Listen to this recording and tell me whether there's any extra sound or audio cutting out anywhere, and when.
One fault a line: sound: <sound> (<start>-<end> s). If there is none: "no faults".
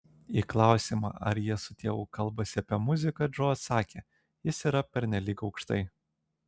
no faults